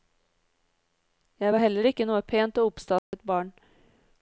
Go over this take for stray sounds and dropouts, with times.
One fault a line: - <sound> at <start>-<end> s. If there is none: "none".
- dropout at 3.0-3.1 s